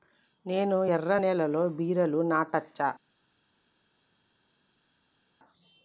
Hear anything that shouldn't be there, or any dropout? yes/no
no